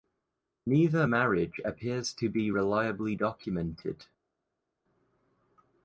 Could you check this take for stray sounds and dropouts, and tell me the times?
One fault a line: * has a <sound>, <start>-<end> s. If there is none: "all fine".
all fine